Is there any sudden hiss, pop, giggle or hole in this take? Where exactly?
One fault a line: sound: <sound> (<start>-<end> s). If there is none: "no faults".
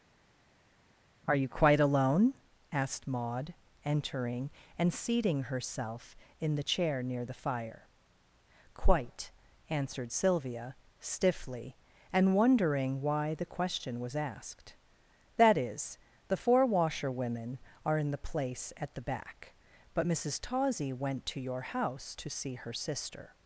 no faults